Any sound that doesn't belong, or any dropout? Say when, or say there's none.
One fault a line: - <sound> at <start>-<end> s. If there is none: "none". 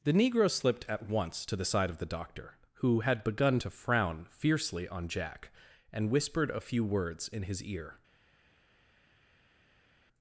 none